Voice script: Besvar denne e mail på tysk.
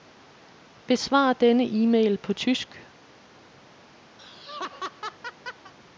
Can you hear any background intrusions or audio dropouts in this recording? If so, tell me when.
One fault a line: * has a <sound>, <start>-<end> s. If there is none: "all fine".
* has a laugh, 4.2-5.7 s